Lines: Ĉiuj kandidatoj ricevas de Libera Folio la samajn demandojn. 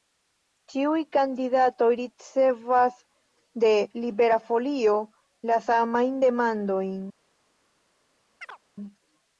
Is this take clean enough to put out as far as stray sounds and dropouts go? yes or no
no